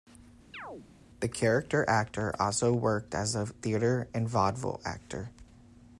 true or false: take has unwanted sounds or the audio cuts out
true